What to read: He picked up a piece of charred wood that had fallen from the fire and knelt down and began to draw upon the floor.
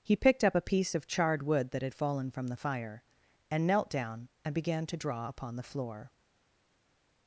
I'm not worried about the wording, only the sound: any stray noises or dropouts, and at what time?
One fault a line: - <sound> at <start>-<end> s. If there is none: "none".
none